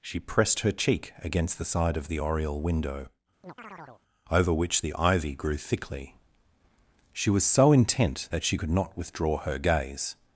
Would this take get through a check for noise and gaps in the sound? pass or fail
fail